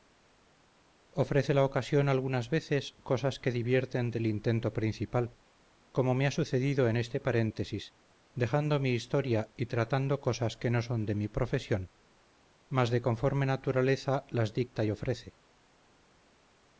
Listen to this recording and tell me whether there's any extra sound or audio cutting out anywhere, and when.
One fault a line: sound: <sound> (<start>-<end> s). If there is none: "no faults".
no faults